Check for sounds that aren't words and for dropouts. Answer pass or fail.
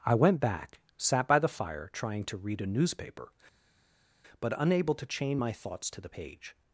pass